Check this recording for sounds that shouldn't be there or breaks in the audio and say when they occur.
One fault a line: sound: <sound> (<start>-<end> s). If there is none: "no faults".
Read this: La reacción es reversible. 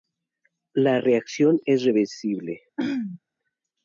sound: throat clearing (2.8-3.2 s)